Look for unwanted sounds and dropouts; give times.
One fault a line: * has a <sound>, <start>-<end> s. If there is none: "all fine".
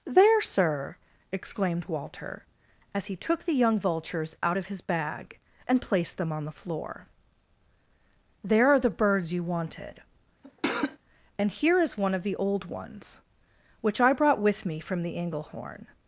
* has a cough, 10.4-11.0 s